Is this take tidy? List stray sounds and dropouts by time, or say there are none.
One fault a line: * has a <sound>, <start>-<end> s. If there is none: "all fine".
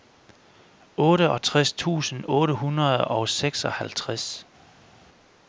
all fine